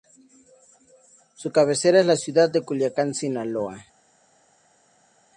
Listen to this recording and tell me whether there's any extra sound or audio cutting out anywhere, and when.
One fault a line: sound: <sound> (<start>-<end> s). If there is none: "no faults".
no faults